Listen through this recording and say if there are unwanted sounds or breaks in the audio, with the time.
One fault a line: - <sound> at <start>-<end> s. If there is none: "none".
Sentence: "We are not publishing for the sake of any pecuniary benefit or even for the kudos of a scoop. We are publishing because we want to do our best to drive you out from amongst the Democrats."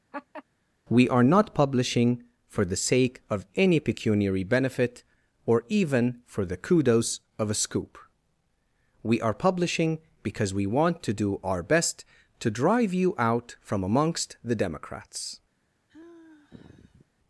- laugh at 0.1-0.4 s
- sigh at 15.9-17.1 s